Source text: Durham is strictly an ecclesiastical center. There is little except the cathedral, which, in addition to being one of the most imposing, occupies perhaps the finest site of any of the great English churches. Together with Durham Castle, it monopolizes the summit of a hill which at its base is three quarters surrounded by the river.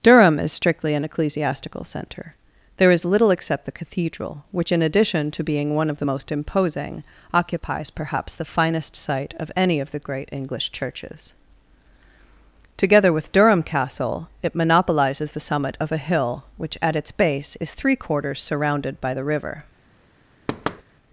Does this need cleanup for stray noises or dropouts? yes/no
yes